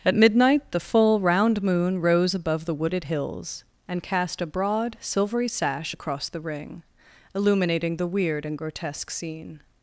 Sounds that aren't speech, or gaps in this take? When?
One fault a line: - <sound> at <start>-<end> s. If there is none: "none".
none